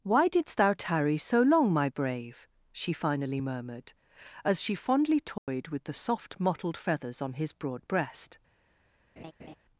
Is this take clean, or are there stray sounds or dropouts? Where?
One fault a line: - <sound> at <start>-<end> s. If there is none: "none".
- dropout at 5.4-5.5 s
- laugh at 9.2-9.6 s